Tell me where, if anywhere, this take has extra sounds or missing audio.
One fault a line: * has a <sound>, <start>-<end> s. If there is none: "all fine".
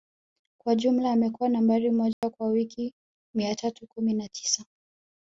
* has a dropout, 2.1-2.2 s